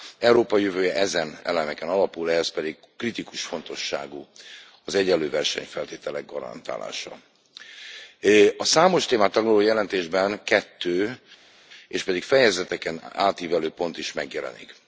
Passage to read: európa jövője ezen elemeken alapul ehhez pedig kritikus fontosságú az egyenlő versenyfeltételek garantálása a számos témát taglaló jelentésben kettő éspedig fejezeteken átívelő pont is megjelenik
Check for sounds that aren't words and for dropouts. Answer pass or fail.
pass